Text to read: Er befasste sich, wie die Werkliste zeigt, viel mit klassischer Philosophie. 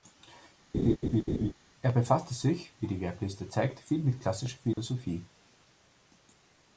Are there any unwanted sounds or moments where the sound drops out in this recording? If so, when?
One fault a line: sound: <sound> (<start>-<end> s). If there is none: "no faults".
sound: laugh (0.7-1.5 s)
sound: dropout (4.7-4.8 s)